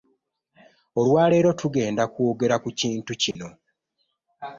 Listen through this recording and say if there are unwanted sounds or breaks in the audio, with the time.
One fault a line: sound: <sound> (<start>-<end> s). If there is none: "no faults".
sound: dropout (3.3-3.4 s)